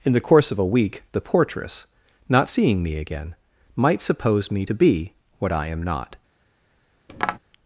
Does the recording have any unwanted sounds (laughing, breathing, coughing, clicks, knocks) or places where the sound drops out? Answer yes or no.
yes